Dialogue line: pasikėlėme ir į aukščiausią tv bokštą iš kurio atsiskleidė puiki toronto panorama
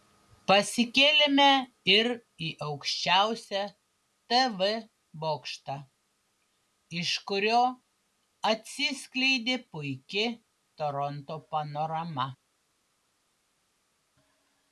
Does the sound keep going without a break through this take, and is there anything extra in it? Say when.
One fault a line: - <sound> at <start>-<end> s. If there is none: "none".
none